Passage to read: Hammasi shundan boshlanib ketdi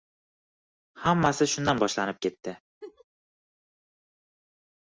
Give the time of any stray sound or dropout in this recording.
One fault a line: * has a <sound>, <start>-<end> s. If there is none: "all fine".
* has a laugh, 2.8-3.0 s